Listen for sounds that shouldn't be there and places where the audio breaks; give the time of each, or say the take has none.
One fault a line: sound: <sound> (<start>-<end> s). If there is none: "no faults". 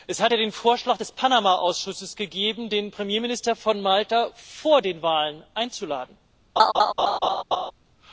sound: laugh (6.6-7.7 s)